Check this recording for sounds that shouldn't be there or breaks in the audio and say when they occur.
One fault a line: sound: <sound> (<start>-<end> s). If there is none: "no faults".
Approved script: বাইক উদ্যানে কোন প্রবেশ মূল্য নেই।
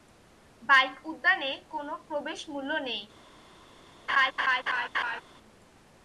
sound: laugh (4.1-5.2 s)